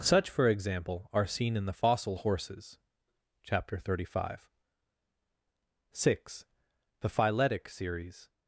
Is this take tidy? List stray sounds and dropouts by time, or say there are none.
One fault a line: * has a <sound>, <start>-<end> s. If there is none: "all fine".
all fine